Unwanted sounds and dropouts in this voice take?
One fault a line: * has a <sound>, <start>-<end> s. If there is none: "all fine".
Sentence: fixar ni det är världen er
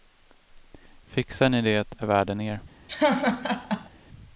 * has a laugh, 2.9-3.9 s